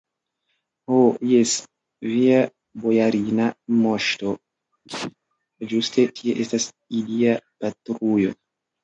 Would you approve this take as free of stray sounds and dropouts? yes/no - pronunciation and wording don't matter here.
no